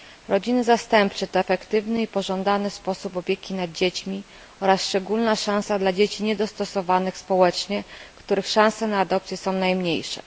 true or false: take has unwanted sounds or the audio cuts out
false